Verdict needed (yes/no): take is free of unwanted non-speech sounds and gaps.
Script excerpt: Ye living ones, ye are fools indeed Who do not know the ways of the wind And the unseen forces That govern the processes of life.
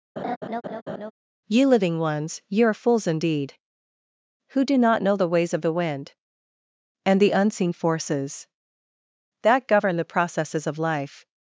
no